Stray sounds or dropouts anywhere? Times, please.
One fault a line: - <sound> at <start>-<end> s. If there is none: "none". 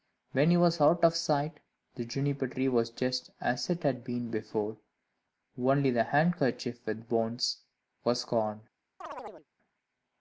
- chirp at 9.0-9.5 s